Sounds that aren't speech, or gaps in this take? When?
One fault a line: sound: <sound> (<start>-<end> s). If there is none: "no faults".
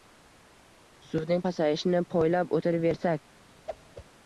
sound: whoosh (3.7-4.1 s)